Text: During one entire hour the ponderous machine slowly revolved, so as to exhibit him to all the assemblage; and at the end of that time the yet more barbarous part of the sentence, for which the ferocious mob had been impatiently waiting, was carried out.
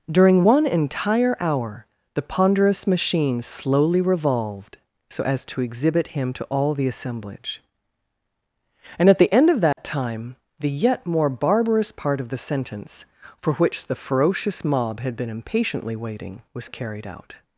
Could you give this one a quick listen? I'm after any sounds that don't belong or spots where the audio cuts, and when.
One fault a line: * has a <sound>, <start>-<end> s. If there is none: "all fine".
* has a dropout, 9.7-9.8 s